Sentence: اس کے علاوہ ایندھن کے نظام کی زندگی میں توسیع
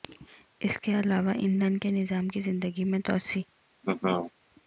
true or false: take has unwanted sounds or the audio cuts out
true